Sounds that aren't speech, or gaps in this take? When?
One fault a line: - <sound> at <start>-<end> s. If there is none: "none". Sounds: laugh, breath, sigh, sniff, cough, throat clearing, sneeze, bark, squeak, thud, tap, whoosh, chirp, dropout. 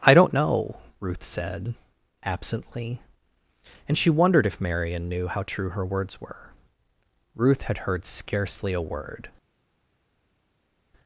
none